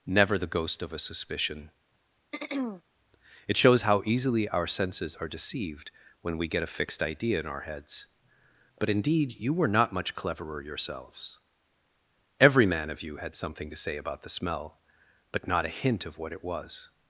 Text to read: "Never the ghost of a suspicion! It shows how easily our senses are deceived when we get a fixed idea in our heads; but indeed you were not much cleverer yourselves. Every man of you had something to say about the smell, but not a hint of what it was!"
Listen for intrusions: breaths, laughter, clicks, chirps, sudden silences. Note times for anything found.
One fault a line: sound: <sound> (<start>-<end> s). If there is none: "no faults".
sound: throat clearing (2.3-2.8 s)